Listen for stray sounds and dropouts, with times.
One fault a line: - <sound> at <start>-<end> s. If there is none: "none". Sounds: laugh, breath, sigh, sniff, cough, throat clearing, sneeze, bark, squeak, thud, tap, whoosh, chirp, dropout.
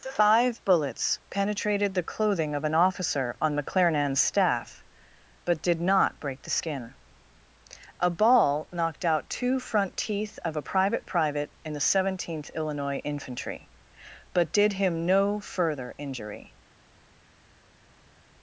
none